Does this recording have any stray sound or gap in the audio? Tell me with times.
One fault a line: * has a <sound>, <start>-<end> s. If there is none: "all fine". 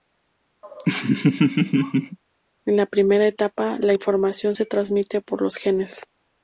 * has a laugh, 0.6-2.2 s